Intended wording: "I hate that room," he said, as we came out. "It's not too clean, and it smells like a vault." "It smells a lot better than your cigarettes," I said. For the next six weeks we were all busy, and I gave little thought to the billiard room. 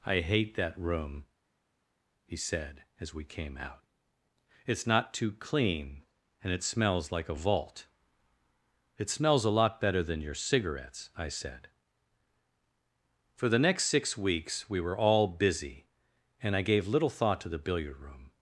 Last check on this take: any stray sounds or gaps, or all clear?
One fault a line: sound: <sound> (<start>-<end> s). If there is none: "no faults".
no faults